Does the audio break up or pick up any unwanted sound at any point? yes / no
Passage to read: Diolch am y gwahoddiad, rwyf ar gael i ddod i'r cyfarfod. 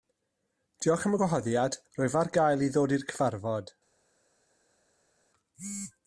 no